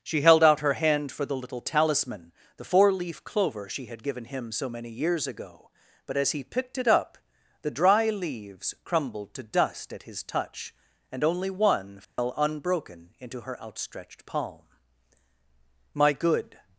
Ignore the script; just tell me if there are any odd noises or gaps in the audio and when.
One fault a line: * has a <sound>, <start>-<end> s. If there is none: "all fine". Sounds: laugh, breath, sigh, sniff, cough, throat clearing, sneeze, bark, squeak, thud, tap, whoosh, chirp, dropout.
* has a dropout, 12.0-12.2 s